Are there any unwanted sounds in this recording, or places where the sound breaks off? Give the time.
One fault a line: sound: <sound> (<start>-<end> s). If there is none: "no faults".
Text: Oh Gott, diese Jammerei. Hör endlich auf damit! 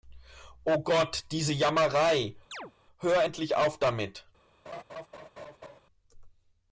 sound: chirp (2.5-2.7 s)
sound: laugh (4.7-5.8 s)